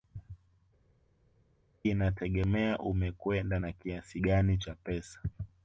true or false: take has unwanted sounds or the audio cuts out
false